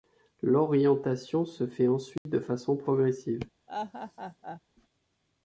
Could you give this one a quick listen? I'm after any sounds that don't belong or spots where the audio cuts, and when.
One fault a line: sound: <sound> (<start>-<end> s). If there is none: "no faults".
sound: dropout (2.2-2.3 s)
sound: laugh (3.7-4.6 s)